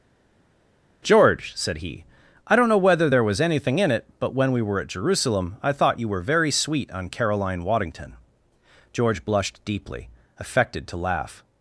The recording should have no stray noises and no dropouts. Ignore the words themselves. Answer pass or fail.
pass